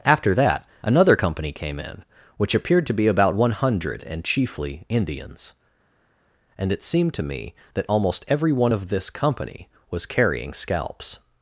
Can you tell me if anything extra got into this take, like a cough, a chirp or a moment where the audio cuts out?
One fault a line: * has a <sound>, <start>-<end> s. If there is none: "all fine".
all fine